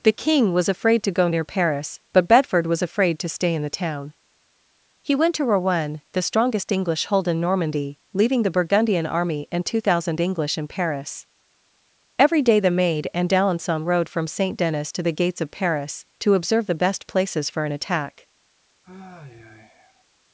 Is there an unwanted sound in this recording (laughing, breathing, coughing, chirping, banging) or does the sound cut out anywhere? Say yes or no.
yes